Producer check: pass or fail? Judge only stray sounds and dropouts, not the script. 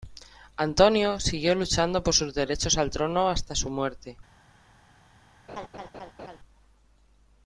fail